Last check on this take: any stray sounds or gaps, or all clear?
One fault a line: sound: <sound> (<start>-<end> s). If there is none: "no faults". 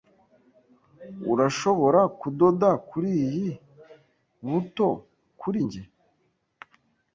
no faults